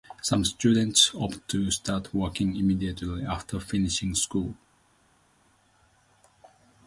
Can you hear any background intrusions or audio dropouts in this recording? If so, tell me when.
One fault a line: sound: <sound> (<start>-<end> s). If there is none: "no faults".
no faults